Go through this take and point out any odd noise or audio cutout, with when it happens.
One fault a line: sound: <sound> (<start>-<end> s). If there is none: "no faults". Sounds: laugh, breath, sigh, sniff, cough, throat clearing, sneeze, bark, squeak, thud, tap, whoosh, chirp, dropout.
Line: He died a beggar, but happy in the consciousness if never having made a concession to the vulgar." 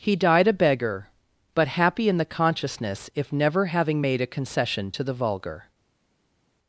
no faults